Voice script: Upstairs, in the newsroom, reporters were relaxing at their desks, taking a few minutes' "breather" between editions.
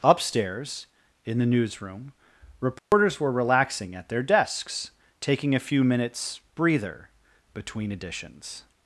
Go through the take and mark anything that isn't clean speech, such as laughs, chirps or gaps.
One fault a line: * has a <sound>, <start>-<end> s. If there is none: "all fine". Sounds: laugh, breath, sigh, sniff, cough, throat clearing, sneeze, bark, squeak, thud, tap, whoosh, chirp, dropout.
* has a dropout, 2.8-2.9 s